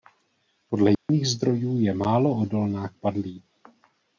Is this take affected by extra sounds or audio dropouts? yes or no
yes